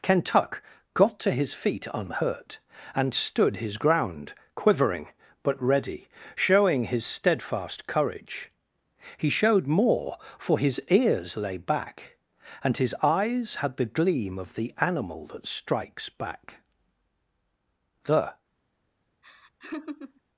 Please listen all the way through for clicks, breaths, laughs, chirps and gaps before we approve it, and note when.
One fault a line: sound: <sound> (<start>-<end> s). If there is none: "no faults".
sound: laugh (19.2-20.2 s)